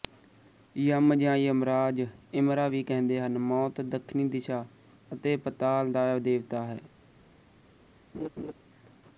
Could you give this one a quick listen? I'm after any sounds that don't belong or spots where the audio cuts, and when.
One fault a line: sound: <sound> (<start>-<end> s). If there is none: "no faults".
sound: laugh (8.1-8.5 s)